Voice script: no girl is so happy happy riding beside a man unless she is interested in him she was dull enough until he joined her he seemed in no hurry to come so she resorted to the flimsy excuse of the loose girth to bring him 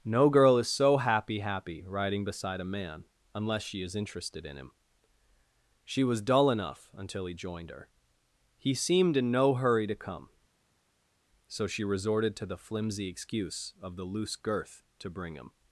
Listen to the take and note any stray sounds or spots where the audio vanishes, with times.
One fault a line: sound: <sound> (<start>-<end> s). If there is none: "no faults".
no faults